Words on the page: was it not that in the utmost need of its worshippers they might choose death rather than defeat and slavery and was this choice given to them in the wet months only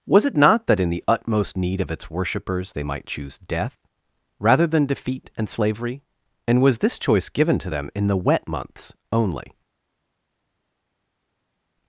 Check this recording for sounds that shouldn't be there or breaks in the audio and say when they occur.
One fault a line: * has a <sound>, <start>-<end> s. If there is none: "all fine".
all fine